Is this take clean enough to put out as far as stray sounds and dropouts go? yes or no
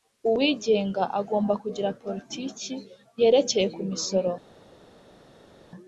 yes